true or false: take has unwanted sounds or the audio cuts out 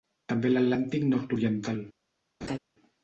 true